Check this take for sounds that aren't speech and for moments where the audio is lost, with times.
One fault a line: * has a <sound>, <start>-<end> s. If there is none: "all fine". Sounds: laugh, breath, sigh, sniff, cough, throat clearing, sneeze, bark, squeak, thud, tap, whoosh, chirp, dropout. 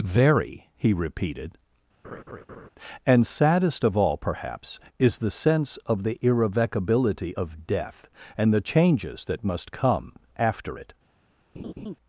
* has a laugh, 2.0-2.7 s
* has a laugh, 11.5-12.0 s